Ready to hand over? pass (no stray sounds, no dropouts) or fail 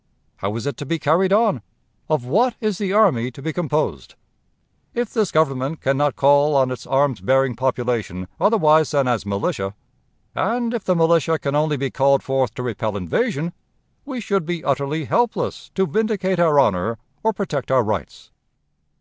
pass